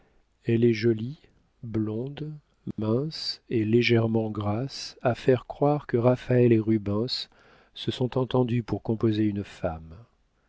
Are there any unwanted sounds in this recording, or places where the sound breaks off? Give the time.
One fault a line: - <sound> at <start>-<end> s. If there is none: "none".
- dropout at 2.7-2.8 s